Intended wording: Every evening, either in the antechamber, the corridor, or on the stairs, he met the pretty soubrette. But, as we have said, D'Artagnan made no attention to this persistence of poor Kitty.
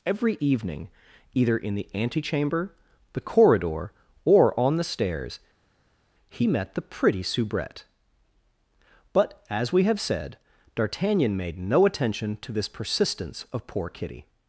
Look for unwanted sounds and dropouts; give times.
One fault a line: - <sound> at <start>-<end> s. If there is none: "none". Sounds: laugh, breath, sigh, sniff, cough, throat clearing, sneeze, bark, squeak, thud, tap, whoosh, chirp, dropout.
none